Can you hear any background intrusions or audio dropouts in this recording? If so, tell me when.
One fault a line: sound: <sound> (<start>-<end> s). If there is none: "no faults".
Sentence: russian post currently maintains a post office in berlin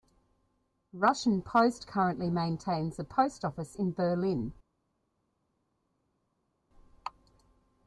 no faults